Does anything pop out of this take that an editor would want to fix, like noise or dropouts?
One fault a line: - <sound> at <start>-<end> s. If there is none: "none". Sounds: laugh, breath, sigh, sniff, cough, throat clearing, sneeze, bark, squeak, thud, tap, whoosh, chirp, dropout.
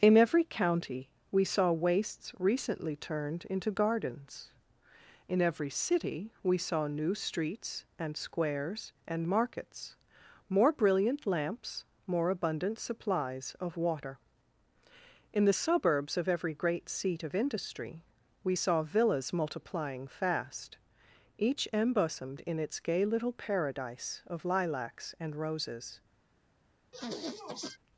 - sniff at 26.9-27.8 s